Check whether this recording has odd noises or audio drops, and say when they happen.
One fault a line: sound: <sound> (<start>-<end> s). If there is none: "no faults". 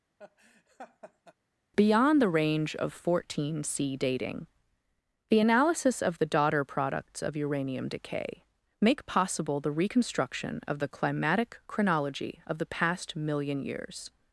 sound: laugh (0.2-1.3 s)